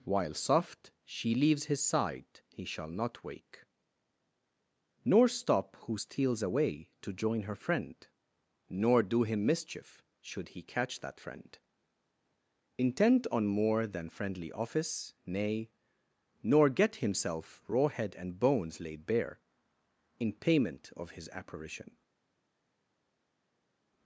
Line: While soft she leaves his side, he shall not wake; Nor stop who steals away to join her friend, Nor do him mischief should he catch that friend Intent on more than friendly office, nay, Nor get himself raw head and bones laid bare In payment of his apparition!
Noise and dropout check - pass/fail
pass